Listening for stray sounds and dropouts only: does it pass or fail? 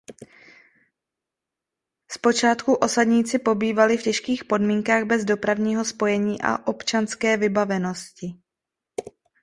pass